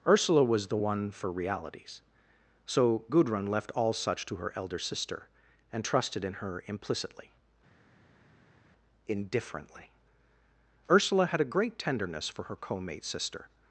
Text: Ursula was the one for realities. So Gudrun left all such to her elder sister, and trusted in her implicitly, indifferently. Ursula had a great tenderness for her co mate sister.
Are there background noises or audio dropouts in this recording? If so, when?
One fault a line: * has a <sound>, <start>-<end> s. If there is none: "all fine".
all fine